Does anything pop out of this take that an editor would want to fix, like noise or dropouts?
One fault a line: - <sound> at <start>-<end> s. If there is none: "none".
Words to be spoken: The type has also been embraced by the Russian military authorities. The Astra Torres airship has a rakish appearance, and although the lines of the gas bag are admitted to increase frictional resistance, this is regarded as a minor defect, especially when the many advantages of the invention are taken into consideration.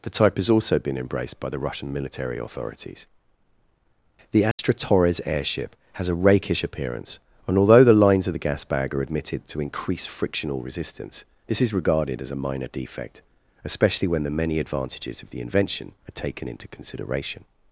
- dropout at 4.5-4.6 s